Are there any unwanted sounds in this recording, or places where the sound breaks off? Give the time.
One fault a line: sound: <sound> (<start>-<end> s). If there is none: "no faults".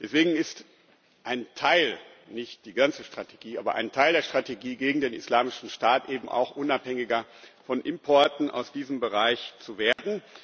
sound: dropout (9.9-10.0 s)